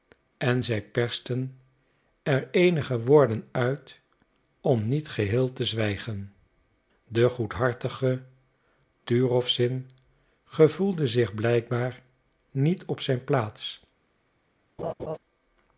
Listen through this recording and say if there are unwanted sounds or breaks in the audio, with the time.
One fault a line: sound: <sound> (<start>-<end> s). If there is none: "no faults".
sound: laugh (14.8-15.2 s)